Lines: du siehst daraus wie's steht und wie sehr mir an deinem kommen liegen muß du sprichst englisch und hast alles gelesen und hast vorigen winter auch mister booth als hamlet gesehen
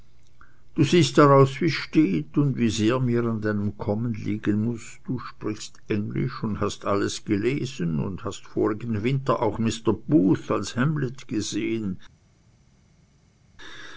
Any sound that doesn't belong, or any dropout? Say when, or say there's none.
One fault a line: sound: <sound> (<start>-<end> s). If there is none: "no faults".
no faults